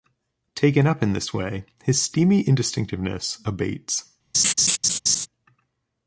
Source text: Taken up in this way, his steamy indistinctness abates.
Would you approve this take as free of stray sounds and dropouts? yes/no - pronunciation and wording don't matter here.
no